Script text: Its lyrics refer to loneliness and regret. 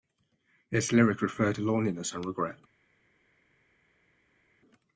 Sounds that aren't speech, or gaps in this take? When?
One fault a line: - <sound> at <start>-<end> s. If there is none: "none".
none